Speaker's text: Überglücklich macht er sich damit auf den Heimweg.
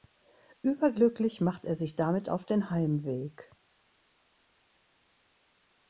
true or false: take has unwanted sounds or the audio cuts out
false